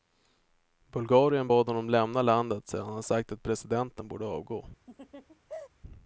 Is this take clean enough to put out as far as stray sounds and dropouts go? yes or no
no